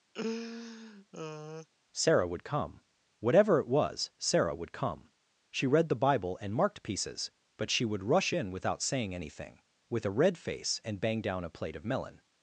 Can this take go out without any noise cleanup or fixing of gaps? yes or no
no